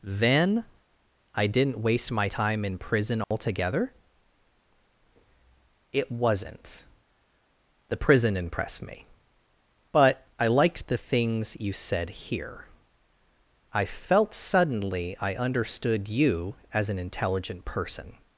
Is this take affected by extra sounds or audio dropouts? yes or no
yes